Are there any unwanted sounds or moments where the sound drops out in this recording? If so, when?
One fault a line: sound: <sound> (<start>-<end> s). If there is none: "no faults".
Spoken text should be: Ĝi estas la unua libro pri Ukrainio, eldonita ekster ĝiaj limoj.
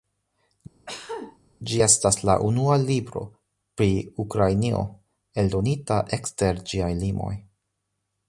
sound: cough (0.9-1.4 s)